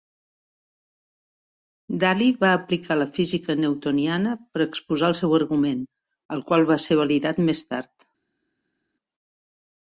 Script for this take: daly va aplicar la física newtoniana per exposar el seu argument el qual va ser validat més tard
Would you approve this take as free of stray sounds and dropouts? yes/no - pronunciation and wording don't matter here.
yes